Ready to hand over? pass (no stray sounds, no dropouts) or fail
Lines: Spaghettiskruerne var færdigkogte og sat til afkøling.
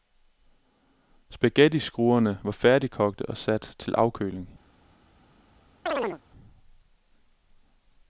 fail